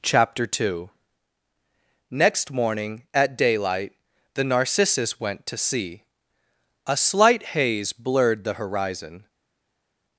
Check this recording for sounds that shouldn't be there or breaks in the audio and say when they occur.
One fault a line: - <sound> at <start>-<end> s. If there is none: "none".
none